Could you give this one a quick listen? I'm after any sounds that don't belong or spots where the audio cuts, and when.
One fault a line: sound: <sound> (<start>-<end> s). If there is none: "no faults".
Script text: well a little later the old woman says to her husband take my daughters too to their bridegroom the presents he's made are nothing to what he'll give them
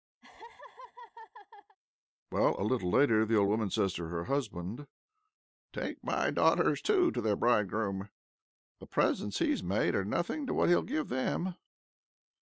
sound: laugh (0.2-1.8 s)